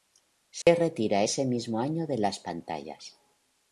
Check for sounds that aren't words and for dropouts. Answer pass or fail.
fail